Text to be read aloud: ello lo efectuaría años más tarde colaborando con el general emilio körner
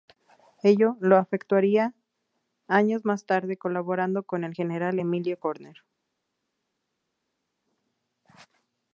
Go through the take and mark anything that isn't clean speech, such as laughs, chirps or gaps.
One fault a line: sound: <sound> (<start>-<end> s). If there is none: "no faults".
no faults